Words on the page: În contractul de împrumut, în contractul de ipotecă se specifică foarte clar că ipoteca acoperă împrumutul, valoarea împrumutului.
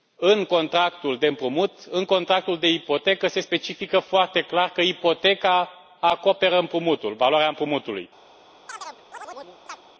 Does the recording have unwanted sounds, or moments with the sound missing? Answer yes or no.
yes